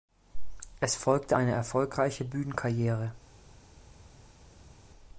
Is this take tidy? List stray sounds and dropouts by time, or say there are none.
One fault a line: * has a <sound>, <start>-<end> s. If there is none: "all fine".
all fine